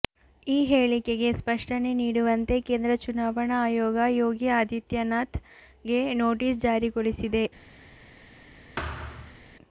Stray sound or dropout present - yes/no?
yes